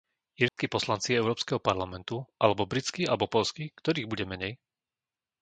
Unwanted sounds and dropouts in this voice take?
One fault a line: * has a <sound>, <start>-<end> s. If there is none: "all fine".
* has a dropout, 0.5-0.6 s